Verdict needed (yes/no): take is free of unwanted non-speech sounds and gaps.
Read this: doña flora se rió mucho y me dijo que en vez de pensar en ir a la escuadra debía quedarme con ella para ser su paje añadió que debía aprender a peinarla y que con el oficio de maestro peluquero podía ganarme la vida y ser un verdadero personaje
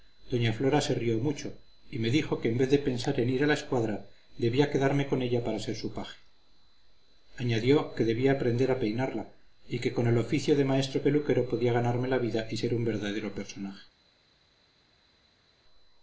yes